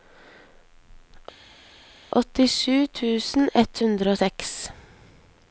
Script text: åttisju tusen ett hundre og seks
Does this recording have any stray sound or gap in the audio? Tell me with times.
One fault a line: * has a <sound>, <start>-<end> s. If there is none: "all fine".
all fine